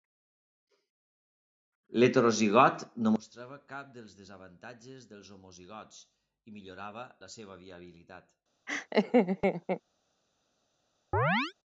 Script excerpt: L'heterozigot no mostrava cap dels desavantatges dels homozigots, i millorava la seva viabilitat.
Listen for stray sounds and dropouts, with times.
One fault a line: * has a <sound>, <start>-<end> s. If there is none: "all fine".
* has a laugh, 8.7-9.8 s
* has a chirp, 11.1-11.5 s